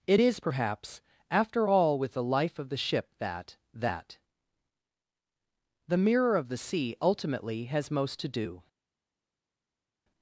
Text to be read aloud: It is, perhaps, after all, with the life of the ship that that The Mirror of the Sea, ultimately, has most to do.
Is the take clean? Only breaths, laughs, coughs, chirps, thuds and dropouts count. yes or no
yes